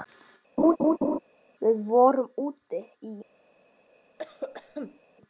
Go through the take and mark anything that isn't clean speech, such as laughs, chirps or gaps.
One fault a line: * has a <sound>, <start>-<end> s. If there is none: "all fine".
* has a laugh, 0.6-1.2 s
* has a cough, 4.2-5.0 s